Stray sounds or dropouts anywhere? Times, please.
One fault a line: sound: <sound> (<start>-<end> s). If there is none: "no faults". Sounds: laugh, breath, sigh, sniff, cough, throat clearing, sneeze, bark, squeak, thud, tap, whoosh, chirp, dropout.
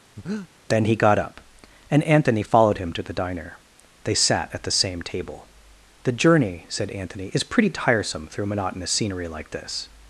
sound: breath (0.2-0.5 s)